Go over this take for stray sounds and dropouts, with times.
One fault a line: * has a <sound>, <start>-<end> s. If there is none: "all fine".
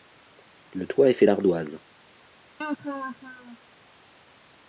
* has a laugh, 2.6-3.6 s